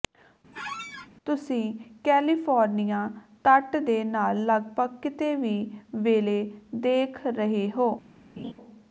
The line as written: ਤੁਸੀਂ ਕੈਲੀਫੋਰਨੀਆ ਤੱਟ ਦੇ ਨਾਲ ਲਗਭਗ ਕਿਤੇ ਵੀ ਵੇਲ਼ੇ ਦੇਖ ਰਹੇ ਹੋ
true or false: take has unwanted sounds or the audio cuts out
true